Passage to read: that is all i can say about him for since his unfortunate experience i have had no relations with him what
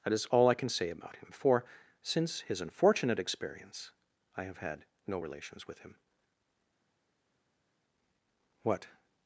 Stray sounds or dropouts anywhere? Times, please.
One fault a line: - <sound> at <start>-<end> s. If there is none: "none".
none